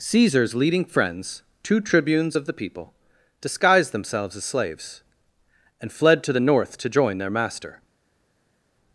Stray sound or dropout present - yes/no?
no